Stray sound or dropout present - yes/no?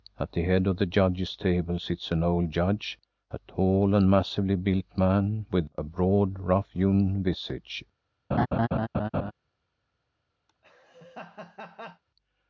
yes